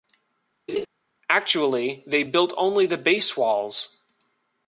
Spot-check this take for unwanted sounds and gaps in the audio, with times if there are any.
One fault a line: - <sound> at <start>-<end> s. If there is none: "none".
- laugh at 0.7-0.9 s